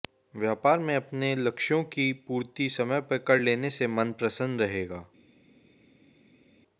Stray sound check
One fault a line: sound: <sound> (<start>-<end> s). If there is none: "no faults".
no faults